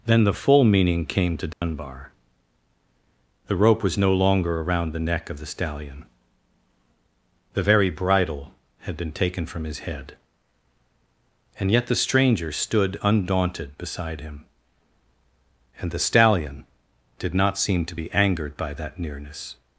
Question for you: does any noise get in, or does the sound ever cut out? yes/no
yes